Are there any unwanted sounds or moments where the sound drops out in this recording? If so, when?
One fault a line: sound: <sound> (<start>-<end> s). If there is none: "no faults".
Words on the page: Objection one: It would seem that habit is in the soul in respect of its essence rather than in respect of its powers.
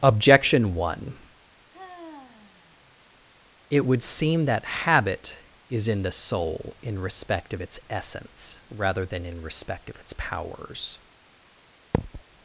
sound: sigh (1.7-3.0 s)
sound: thud (11.9-12.2 s)